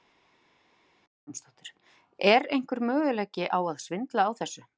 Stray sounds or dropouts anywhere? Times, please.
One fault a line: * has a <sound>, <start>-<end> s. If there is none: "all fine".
all fine